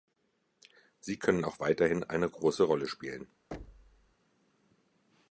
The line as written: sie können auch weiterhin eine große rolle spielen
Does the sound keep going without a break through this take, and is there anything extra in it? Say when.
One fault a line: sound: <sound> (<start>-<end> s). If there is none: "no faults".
sound: thud (3.5-4.2 s)